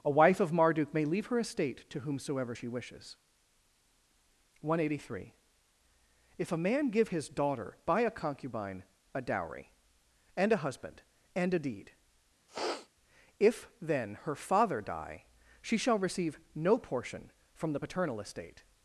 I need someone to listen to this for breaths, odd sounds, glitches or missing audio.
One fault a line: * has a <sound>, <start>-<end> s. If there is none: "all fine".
* has a sniff, 12.5-12.9 s